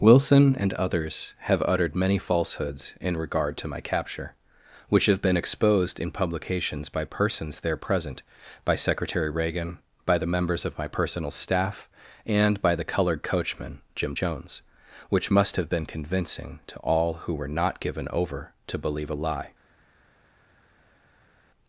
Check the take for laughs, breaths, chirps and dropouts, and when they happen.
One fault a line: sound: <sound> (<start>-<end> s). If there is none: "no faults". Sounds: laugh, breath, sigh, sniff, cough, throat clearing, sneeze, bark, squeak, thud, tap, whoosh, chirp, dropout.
no faults